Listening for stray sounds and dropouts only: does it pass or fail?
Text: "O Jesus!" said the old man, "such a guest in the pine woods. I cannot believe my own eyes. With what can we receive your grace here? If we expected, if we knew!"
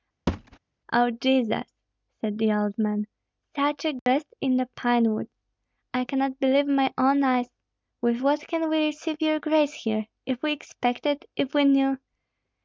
fail